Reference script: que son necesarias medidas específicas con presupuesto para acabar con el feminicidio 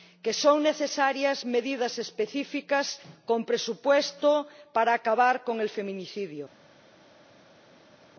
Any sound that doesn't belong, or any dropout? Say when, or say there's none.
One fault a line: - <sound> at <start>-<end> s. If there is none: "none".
none